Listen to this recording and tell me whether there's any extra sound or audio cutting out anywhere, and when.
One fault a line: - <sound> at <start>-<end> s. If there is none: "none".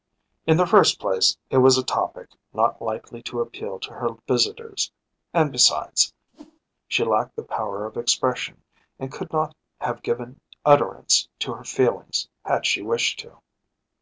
- whoosh at 6.3-6.6 s